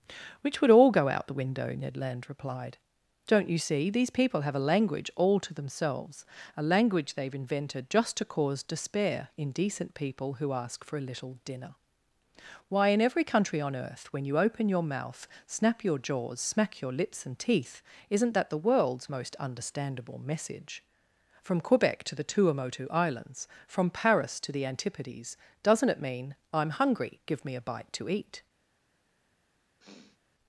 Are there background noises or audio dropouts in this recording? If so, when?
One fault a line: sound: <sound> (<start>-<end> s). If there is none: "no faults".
sound: sniff (29.8-30.2 s)